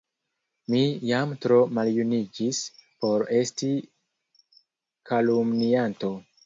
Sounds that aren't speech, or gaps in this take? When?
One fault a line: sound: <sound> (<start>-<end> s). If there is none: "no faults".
no faults